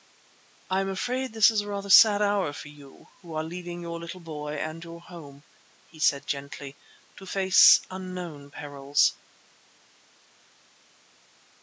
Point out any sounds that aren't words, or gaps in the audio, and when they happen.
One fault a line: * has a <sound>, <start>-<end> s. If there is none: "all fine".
all fine